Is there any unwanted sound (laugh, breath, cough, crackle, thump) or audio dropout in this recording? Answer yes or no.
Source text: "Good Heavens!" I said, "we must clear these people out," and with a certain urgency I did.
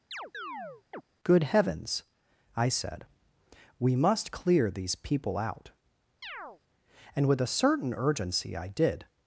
yes